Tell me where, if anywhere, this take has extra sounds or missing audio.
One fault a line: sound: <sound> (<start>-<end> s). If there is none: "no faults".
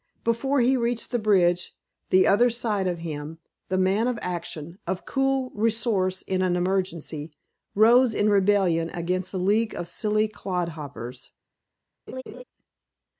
sound: laugh (12.1-12.4 s)